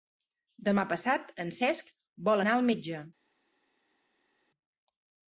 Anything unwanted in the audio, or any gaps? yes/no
no